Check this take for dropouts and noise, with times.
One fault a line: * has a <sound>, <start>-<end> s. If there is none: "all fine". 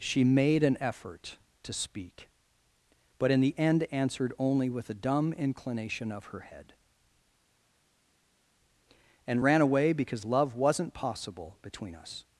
all fine